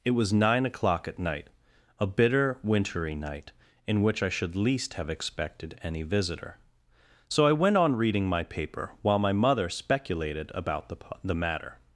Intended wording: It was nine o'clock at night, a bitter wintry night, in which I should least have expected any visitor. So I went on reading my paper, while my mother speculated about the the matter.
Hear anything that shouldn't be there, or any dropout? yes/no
no